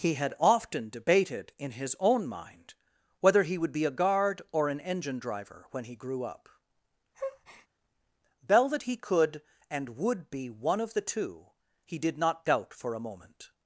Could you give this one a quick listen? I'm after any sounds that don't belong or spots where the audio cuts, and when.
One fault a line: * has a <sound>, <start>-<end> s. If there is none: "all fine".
* has a breath, 7.1-7.7 s